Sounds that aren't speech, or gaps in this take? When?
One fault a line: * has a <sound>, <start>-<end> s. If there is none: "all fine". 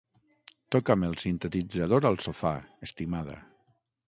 all fine